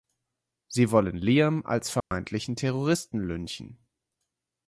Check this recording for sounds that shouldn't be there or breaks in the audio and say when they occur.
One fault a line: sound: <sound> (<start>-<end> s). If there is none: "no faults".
sound: dropout (2.0-2.1 s)